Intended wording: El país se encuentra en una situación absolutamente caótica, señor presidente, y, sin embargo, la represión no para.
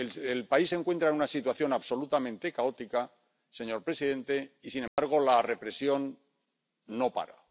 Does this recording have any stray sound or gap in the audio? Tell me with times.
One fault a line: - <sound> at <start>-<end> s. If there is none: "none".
- dropout at 4.9-5.0 s